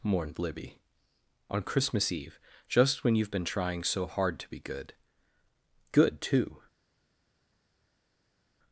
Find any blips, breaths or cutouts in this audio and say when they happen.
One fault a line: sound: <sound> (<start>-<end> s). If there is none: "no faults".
no faults